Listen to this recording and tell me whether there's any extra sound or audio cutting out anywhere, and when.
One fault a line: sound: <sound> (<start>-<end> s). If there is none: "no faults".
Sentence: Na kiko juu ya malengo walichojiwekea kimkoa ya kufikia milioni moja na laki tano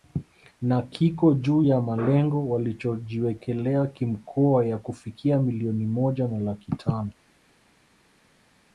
no faults